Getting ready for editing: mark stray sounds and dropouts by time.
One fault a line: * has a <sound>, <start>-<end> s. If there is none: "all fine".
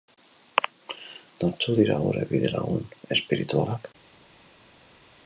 all fine